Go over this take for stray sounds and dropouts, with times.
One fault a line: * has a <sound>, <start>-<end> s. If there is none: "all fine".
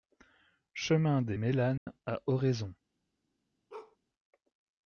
* has a dropout, 1.8-1.9 s
* has a bark, 3.7-4.0 s